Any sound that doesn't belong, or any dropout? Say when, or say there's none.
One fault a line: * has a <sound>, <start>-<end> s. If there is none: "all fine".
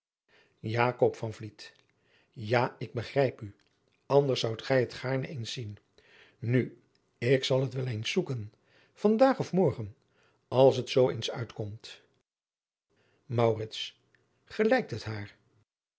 all fine